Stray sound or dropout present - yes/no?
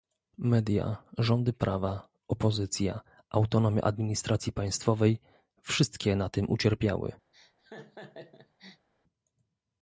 yes